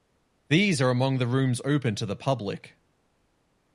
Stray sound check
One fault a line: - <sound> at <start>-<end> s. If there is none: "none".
none